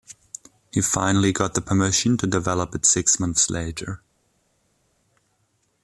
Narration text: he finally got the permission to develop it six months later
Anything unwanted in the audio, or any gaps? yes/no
no